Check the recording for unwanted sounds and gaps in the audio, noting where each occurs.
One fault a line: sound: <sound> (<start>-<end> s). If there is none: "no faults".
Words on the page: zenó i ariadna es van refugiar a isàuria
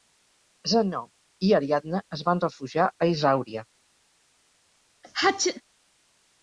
sound: sneeze (5.0-5.6 s)